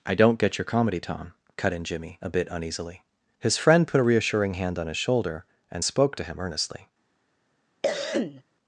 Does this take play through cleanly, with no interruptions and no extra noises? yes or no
no